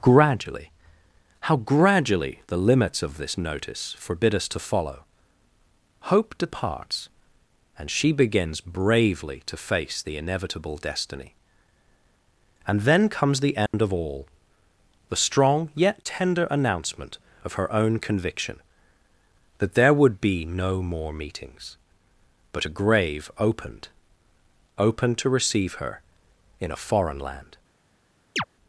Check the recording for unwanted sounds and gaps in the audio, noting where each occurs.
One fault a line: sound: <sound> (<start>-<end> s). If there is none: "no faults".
sound: dropout (13.7-13.7 s)
sound: chirp (28.4-28.4 s)